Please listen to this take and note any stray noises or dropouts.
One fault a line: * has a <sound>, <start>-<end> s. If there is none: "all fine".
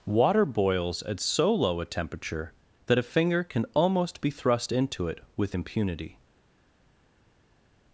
all fine